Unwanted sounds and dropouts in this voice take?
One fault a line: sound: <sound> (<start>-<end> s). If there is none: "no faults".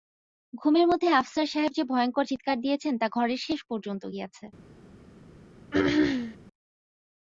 sound: throat clearing (5.7-6.4 s)